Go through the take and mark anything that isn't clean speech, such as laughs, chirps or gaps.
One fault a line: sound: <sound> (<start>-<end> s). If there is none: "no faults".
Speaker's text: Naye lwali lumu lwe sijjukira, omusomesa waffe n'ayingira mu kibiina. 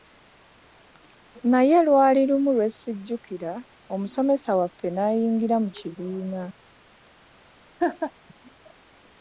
sound: laugh (7.8-8.1 s)